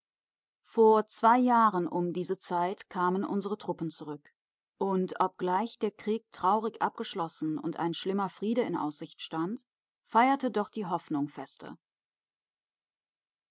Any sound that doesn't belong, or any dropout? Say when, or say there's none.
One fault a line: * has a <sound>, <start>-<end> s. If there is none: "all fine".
all fine